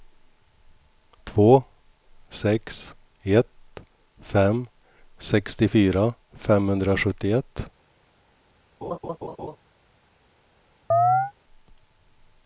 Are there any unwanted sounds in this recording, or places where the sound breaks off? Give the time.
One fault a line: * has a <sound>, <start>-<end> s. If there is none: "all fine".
* has a laugh, 8.8-9.6 s
* has a chirp, 10.9-11.3 s